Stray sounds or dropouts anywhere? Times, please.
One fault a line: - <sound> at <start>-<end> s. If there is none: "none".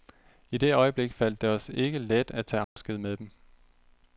- dropout at 2.6-2.8 s